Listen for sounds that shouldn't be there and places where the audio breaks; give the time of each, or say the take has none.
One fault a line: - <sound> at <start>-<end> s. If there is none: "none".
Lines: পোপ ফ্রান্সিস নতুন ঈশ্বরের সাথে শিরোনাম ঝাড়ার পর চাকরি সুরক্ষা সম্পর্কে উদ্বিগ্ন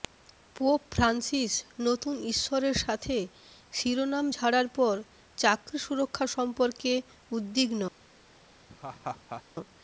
- laugh at 8.7-9.4 s